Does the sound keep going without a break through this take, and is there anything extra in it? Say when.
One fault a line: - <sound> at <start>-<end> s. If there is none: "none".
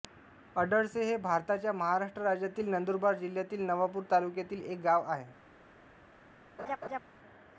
- laugh at 6.6-7.0 s